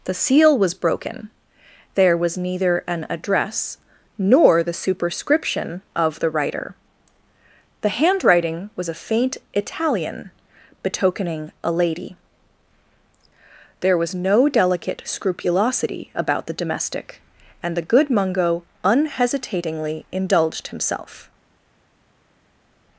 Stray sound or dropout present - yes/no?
no